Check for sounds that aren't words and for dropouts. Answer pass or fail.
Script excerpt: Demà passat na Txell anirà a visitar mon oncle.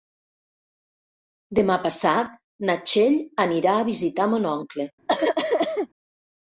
fail